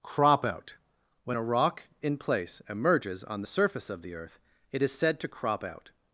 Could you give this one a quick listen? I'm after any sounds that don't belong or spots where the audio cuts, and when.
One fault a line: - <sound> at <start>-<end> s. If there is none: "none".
none